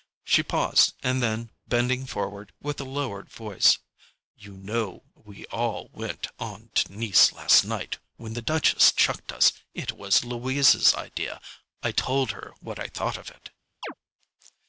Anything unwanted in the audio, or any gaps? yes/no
yes